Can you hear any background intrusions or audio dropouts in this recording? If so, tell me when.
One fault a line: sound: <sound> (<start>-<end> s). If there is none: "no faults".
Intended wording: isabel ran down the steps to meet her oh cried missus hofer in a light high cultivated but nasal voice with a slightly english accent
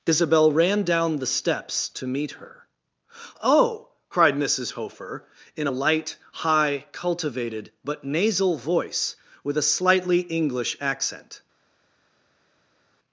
no faults